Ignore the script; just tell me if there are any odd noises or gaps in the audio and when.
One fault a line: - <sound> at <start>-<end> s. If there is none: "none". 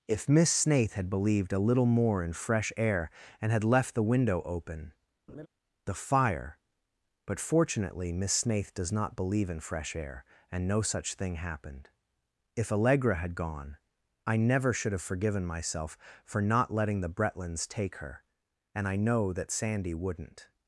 - laugh at 5.3-5.5 s